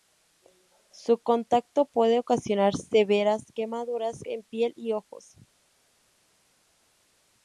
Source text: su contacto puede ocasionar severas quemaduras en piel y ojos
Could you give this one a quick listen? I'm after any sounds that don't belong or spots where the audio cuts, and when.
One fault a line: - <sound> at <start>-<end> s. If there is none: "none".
none